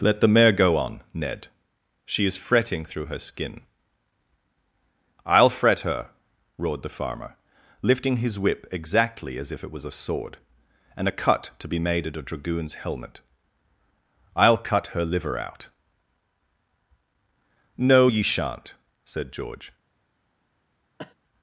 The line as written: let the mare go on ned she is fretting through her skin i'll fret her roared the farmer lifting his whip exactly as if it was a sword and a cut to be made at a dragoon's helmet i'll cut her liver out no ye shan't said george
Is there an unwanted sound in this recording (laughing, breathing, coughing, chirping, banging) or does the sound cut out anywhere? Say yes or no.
yes